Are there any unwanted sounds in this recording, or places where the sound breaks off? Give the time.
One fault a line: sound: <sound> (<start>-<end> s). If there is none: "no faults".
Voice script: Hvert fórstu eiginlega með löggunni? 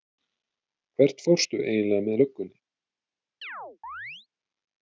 sound: chirp (3.4-4.3 s)